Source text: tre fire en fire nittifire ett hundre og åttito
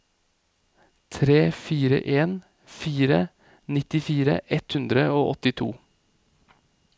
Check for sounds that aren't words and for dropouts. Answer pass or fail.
pass